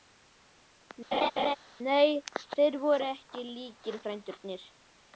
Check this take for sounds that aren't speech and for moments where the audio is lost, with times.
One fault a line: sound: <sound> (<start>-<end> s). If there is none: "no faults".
sound: laugh (1.1-1.6 s)